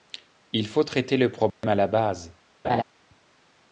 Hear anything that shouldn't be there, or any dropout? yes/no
yes